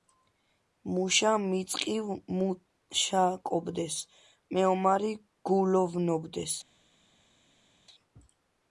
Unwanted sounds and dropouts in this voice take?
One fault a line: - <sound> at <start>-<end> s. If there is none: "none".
none